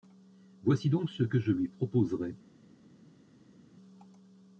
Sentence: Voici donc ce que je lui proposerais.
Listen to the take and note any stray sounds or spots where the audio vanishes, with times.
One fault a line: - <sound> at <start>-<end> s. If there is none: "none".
none